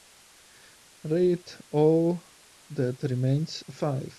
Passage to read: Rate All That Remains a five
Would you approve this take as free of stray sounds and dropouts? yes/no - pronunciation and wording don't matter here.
yes